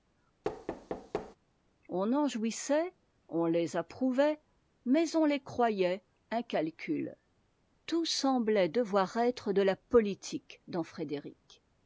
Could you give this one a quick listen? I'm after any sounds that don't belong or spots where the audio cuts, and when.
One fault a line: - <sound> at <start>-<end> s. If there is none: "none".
- thud at 0.4-1.4 s